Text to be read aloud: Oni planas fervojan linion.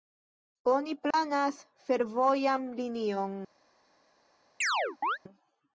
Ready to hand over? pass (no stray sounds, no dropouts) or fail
fail